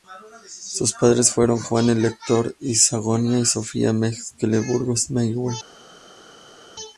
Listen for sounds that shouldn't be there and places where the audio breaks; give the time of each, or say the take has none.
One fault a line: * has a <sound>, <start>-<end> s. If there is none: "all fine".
all fine